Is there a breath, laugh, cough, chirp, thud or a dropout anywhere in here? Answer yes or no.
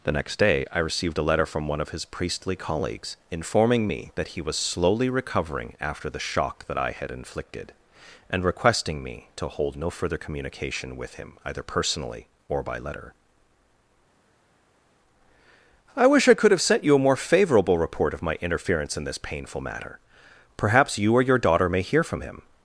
no